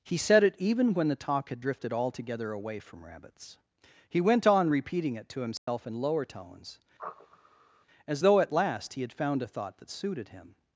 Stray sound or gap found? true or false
true